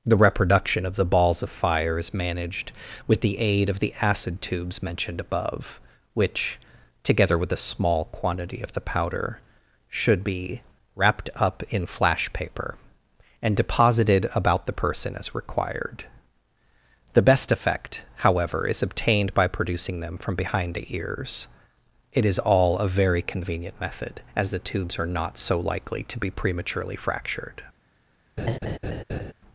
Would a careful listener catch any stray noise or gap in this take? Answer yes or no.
yes